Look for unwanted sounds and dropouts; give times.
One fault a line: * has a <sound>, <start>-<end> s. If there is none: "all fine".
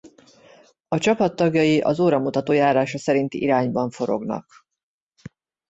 all fine